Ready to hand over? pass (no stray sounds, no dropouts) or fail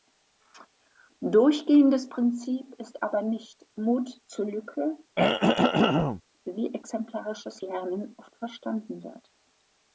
fail